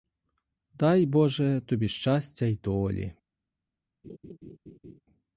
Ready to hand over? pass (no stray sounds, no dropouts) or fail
fail